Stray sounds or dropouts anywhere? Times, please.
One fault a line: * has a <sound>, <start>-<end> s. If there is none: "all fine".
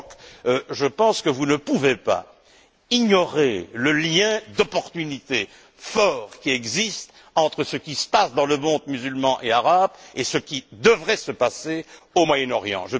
all fine